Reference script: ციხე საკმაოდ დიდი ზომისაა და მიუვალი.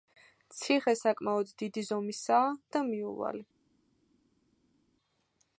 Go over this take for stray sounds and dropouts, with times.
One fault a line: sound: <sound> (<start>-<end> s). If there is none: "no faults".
no faults